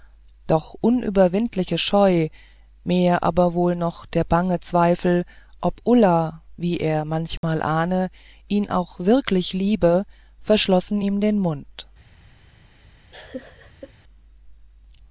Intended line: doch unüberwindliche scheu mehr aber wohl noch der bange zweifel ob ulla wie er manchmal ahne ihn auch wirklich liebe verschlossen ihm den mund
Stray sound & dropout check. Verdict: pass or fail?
fail